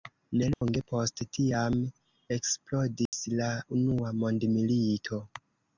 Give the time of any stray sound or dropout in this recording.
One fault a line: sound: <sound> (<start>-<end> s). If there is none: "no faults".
sound: dropout (0.5-0.6 s)
sound: dropout (3.1-3.1 s)